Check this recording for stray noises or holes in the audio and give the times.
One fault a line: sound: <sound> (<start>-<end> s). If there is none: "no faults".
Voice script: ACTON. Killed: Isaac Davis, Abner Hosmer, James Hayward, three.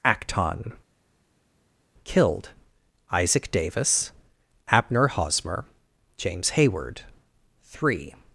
no faults